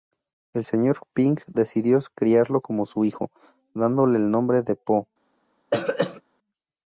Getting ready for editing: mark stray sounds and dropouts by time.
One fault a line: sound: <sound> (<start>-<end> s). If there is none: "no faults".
sound: throat clearing (5.7-6.2 s)